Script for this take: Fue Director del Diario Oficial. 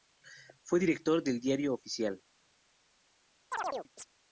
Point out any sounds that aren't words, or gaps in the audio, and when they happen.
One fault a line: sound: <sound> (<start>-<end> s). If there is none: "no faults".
sound: chirp (3.5-4.1 s)